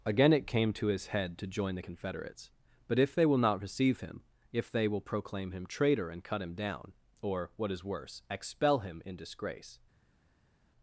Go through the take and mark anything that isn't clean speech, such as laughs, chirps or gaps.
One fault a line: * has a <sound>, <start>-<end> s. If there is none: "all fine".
all fine